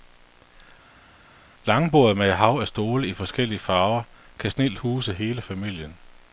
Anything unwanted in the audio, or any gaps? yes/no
no